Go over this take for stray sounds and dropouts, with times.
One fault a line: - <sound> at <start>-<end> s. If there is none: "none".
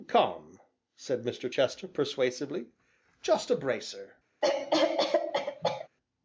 - cough at 4.4-5.9 s